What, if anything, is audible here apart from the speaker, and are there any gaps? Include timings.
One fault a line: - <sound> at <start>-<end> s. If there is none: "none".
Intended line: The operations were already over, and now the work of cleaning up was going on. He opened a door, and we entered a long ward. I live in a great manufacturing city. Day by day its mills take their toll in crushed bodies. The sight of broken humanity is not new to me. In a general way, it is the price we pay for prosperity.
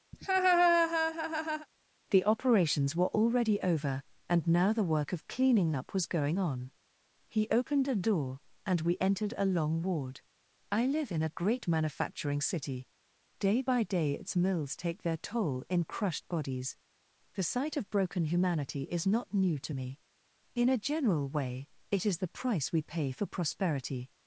- laugh at 0.1-1.7 s